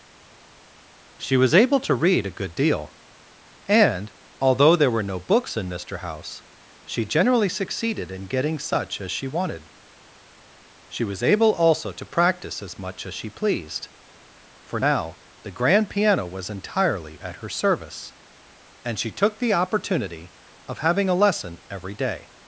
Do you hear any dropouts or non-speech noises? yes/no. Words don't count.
no